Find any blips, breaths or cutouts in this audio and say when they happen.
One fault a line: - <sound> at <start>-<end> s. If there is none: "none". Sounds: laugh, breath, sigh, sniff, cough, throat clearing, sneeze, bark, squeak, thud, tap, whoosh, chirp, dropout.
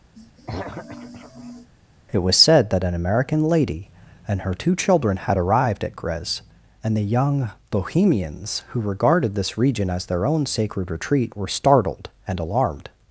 - throat clearing at 0.2-1.7 s